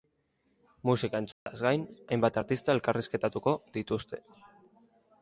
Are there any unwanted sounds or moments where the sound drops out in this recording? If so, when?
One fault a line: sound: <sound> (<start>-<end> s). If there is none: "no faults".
sound: dropout (1.3-1.5 s)